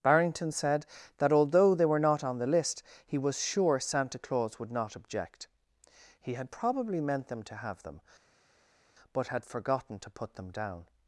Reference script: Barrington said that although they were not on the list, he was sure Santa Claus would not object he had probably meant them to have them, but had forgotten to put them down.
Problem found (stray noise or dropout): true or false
false